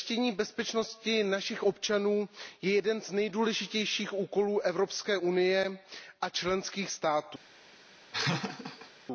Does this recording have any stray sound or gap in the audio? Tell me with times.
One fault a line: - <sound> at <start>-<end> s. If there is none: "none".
- laugh at 8.1-8.9 s